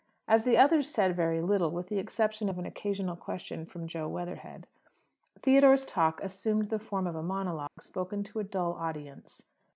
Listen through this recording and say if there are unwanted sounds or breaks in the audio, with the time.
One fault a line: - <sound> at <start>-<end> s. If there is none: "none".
- dropout at 7.7-7.8 s